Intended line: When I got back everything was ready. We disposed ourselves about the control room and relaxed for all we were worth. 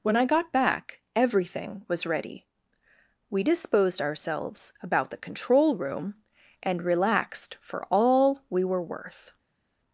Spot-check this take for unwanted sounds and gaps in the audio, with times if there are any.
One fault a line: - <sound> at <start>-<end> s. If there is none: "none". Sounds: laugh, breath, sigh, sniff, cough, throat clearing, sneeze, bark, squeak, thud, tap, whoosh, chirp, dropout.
none